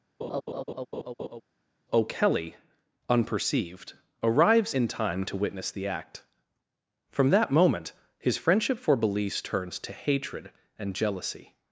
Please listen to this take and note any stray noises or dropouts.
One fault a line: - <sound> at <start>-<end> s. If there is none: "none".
- laugh at 0.2-1.4 s